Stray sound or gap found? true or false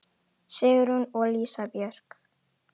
false